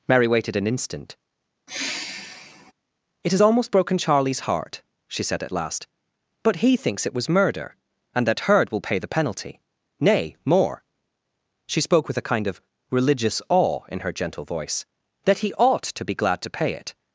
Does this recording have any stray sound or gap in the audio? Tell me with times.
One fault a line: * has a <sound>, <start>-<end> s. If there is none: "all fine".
* has a sigh, 1.7-2.7 s